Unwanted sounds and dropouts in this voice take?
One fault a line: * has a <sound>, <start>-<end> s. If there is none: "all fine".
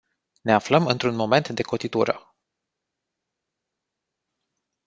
all fine